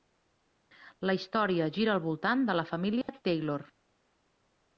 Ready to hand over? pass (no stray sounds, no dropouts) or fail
fail